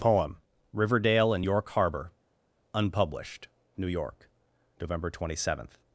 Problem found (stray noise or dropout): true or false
false